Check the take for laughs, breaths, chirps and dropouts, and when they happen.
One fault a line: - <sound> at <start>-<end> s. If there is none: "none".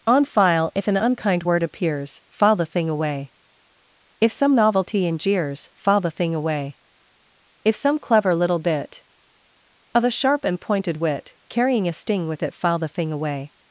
none